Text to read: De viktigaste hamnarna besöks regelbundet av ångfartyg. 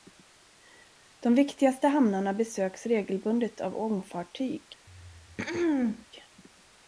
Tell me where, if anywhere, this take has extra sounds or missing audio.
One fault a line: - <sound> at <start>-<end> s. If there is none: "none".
- throat clearing at 4.9-6.1 s